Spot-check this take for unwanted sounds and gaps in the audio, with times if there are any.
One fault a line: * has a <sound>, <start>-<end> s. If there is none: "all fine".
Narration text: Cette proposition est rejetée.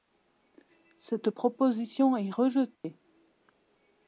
* has a dropout, 2.8-2.8 s